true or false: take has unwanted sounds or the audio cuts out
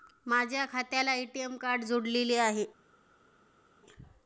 false